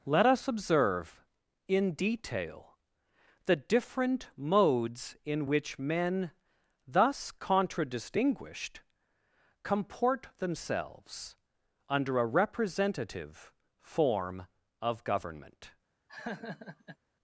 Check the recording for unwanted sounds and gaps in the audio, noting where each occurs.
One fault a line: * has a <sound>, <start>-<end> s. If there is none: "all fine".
* has a laugh, 16.1-17.0 s